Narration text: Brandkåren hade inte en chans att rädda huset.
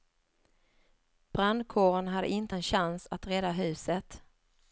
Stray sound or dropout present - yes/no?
no